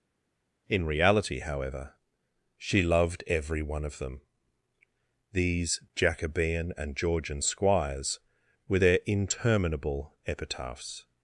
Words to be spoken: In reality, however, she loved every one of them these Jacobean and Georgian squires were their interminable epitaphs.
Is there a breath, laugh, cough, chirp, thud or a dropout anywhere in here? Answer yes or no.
no